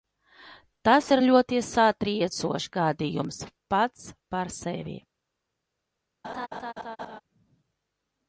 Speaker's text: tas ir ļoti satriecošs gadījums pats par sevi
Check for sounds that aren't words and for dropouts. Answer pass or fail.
fail